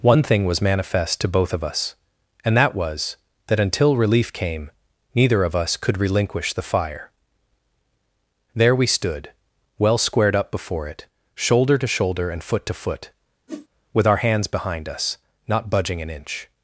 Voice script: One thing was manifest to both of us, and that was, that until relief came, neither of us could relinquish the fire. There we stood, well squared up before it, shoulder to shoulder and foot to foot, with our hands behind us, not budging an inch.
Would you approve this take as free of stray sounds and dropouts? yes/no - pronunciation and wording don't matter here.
no